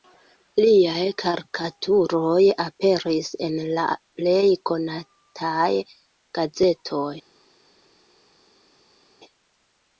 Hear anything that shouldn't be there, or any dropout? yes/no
no